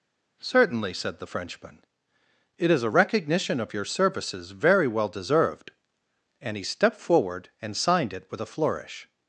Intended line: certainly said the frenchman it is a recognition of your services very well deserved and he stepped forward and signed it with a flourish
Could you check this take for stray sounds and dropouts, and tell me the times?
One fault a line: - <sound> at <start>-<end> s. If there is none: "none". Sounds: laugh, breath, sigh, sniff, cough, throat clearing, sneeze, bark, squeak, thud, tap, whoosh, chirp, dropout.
none